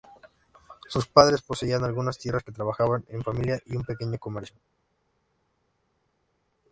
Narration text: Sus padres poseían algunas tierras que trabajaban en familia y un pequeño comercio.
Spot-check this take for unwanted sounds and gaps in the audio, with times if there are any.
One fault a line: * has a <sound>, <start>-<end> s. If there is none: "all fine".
all fine